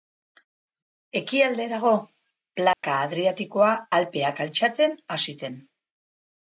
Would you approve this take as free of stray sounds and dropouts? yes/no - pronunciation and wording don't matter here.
no